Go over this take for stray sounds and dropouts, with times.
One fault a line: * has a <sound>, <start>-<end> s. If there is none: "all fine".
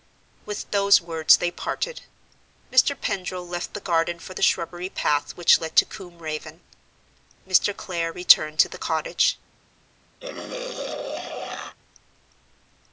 * has a throat clearing, 10.2-11.8 s